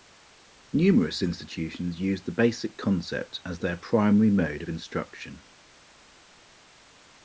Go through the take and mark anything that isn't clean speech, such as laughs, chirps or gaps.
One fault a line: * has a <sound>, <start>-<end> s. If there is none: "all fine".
all fine